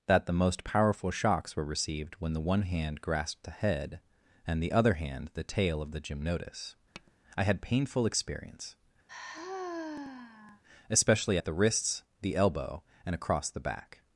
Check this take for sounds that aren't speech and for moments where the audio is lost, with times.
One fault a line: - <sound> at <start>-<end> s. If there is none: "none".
- tap at 6.9-7.1 s
- sigh at 9.1-10.6 s